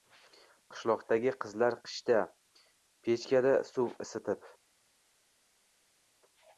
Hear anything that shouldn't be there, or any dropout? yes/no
no